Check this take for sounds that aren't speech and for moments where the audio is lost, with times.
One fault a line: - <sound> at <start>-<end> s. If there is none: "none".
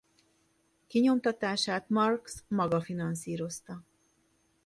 none